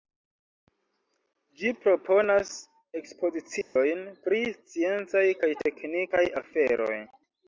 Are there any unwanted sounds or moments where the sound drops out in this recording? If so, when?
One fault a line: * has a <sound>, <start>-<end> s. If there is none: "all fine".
* has a dropout, 3.6-3.8 s